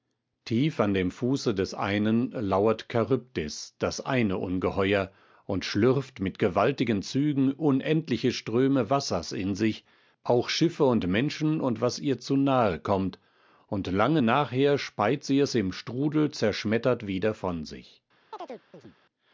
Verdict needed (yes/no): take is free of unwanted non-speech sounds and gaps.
no